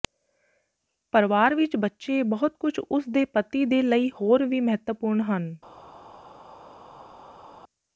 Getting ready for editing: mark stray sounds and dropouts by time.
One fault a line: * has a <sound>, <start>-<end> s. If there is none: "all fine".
all fine